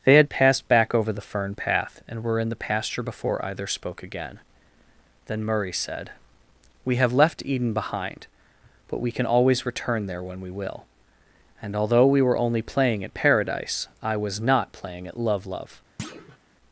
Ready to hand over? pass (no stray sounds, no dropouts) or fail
fail